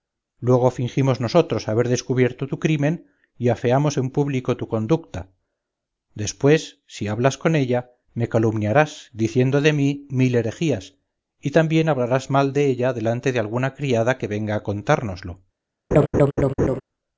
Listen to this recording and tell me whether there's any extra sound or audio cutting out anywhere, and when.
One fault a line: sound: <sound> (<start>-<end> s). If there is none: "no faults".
sound: laugh (15.9-16.8 s)